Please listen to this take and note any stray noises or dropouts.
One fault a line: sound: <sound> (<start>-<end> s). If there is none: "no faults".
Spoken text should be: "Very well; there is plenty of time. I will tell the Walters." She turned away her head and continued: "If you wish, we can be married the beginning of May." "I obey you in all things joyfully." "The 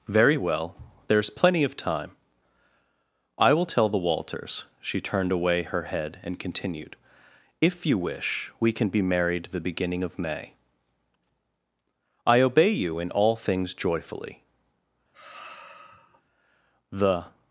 sound: sigh (15.1-16.2 s)